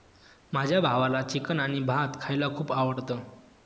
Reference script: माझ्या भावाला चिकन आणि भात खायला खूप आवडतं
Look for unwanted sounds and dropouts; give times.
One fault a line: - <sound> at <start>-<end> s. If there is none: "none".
none